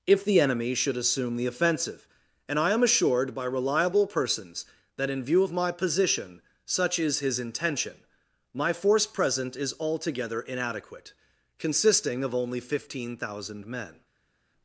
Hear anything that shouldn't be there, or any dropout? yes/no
no